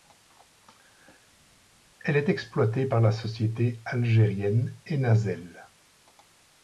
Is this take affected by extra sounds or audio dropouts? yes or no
no